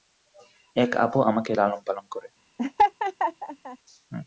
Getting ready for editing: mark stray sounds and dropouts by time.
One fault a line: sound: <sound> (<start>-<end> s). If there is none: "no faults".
sound: laugh (2.6-3.8 s)